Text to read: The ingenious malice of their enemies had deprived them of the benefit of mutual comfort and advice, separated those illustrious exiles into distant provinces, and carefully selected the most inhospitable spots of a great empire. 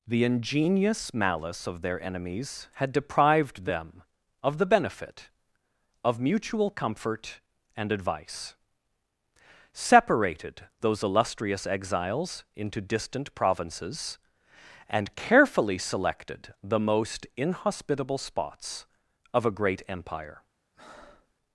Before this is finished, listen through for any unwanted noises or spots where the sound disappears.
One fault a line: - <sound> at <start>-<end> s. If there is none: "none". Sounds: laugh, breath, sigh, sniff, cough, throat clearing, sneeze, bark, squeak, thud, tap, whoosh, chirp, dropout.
- breath at 20.7-21.3 s